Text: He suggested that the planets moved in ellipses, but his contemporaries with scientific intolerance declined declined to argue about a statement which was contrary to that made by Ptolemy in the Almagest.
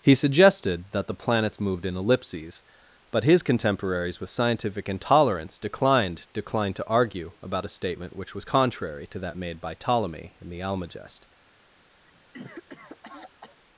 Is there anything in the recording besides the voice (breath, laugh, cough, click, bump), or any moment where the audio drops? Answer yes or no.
yes